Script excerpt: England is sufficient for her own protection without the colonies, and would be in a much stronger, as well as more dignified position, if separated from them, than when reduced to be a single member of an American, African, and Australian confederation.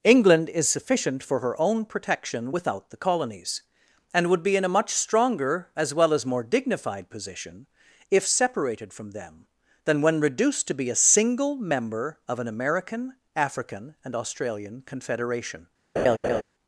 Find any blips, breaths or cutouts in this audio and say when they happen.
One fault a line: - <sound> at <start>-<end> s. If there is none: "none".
- laugh at 16.0-16.4 s